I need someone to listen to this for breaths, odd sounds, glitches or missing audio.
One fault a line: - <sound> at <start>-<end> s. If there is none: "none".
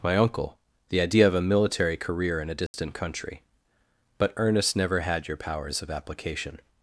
- dropout at 2.7-2.7 s